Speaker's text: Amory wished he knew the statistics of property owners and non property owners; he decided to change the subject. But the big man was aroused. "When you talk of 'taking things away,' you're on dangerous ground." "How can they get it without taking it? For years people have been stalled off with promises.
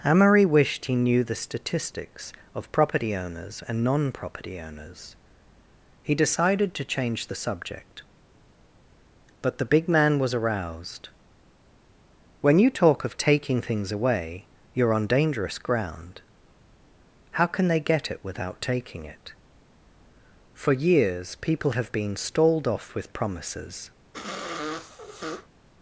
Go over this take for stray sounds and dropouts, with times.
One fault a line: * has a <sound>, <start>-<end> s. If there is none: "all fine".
* has a sniff, 24.1-25.5 s